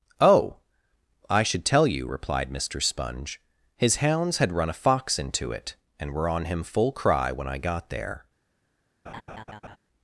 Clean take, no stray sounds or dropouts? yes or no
no